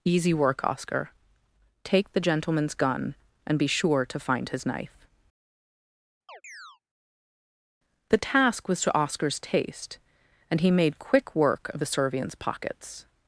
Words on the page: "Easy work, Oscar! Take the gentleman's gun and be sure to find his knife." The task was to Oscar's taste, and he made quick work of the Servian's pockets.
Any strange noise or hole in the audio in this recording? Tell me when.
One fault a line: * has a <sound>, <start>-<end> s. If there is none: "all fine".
* has a chirp, 6.3-6.8 s